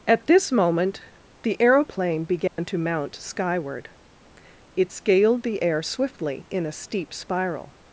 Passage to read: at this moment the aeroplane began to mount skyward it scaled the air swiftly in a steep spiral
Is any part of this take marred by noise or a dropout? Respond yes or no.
yes